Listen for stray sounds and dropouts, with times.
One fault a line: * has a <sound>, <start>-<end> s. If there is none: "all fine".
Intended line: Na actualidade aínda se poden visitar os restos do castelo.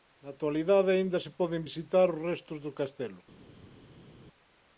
all fine